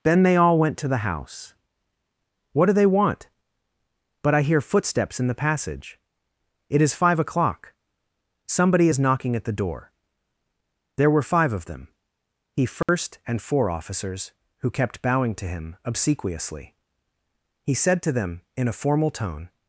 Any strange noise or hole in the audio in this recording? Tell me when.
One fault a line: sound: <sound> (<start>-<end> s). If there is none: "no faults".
sound: dropout (12.8-12.9 s)